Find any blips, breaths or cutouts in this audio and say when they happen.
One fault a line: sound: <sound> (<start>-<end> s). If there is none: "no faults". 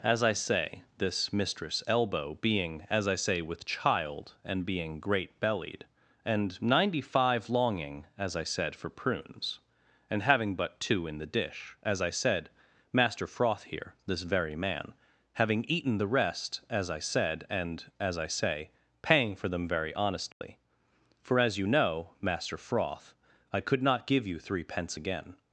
sound: dropout (20.3-20.4 s)